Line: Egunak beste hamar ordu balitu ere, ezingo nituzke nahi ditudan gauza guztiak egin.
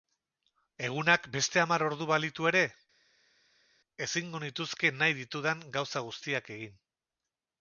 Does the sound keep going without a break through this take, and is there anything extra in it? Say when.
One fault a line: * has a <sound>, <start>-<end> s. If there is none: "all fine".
all fine